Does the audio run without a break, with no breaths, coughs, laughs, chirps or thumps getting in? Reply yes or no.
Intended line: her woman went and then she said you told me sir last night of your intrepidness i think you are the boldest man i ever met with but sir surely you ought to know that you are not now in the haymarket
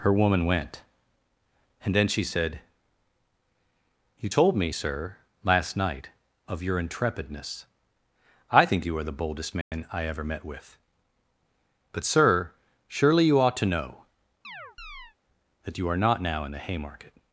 no